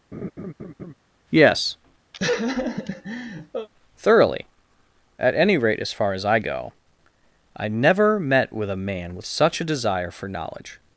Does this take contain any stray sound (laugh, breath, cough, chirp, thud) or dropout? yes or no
yes